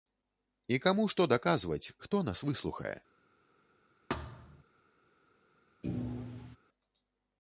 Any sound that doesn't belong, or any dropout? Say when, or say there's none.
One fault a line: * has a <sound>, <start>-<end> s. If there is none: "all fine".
* has a thud, 4.1-4.6 s
* has a thud, 5.8-6.6 s